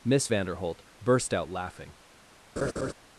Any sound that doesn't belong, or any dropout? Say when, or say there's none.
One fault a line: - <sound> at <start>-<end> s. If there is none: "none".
- laugh at 2.6-2.9 s